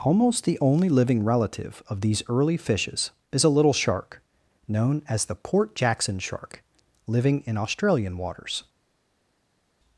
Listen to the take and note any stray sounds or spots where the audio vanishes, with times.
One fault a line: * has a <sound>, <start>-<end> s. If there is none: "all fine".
all fine